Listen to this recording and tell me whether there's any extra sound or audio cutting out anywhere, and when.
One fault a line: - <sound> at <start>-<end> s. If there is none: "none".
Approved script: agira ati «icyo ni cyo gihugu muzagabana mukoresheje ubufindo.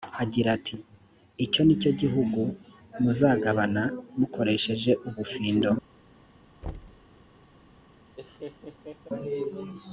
- thud at 6.6-7.1 s
- laugh at 8.2-9.1 s